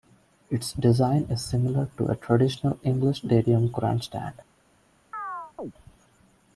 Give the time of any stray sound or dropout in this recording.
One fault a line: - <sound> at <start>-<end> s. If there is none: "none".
- chirp at 5.1-5.7 s